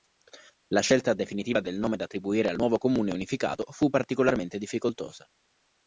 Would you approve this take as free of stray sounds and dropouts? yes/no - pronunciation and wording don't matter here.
yes